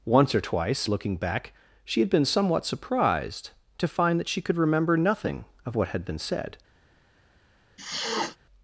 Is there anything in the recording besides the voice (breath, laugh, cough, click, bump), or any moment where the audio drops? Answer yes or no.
yes